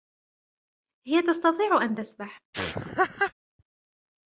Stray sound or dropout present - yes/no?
yes